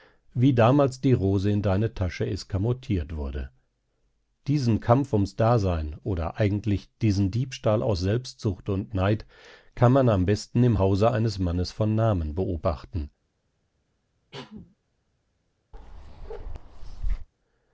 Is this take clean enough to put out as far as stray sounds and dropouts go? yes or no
no